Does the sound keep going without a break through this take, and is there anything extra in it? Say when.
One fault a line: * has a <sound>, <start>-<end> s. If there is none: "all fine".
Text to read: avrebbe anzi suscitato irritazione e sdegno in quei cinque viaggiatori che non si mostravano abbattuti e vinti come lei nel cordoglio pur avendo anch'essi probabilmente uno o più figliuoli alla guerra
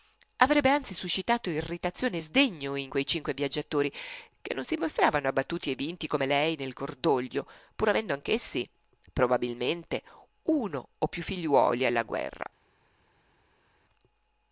all fine